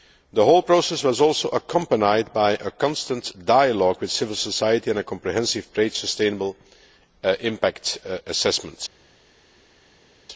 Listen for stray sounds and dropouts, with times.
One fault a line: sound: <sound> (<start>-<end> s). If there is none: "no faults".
no faults